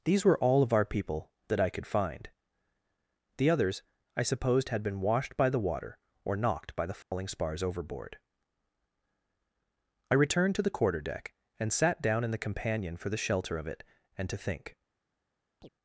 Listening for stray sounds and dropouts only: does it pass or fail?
fail